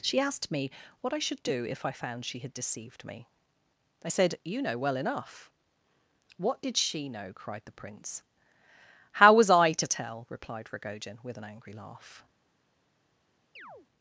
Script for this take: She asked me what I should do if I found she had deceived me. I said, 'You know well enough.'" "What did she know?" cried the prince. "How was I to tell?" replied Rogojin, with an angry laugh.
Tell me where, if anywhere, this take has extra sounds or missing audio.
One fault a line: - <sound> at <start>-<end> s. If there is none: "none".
- chirp at 13.6-13.9 s